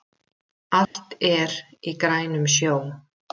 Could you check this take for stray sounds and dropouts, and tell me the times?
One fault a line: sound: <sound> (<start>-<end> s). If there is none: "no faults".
sound: dropout (0.8-0.9 s)